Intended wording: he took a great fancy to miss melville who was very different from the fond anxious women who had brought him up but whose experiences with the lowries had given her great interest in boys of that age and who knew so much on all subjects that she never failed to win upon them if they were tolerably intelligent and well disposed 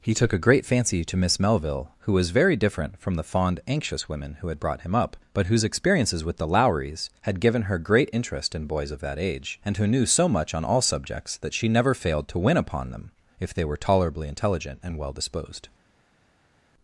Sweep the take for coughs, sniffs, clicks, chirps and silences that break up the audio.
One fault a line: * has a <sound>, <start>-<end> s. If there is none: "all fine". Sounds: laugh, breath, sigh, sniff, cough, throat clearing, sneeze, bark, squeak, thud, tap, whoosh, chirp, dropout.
all fine